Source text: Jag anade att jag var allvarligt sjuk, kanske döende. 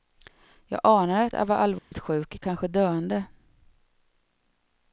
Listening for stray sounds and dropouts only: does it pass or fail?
fail